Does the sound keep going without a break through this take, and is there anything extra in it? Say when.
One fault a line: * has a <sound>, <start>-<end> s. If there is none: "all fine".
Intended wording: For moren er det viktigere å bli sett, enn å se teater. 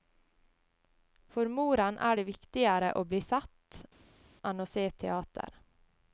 all fine